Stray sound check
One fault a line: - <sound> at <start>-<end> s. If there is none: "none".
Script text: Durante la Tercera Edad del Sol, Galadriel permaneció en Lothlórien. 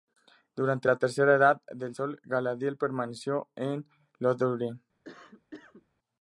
- cough at 5.0-5.9 s